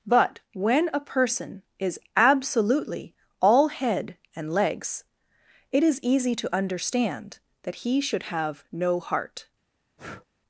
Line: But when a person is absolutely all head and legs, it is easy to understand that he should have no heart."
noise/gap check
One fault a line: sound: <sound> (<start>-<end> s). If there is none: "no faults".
sound: breath (10.0-10.3 s)